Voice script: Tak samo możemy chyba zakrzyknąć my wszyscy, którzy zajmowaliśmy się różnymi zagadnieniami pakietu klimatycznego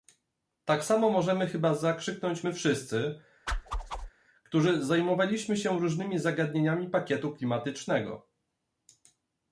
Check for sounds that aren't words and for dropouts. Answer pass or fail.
fail